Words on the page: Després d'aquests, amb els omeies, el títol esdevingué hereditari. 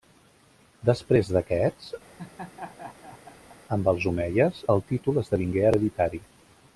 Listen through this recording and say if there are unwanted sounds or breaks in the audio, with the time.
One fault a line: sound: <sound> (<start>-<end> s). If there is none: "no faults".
sound: laugh (2.2-3.6 s)